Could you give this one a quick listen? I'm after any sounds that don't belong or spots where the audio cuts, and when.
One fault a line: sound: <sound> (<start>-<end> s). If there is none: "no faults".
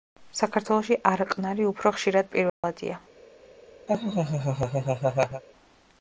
sound: dropout (2.5-2.6 s)
sound: laugh (3.9-5.4 s)